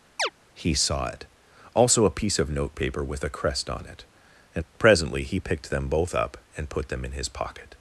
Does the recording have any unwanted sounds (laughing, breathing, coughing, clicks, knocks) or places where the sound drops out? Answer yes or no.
yes